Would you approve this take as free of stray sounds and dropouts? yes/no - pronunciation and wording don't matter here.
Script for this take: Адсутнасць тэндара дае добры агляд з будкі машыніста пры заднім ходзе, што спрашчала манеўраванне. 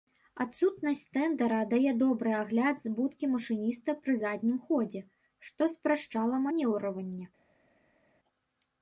yes